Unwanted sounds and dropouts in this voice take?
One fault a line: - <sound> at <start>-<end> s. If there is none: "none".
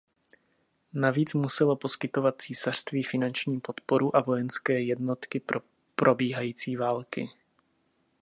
none